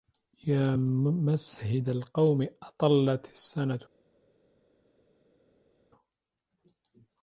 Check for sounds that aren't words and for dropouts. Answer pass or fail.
pass